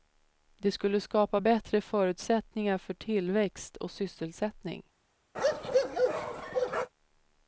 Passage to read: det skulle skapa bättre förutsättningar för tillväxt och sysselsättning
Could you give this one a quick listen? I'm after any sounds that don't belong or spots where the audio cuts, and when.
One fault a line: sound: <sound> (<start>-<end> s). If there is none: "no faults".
sound: bark (5.3-6.9 s)